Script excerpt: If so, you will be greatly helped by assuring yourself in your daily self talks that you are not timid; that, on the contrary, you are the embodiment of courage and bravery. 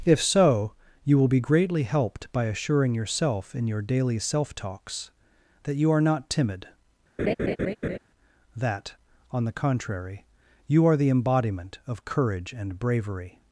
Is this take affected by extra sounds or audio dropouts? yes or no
yes